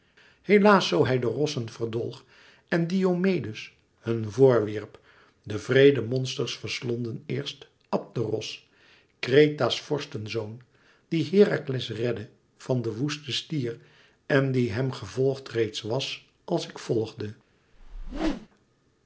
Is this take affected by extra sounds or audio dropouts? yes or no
yes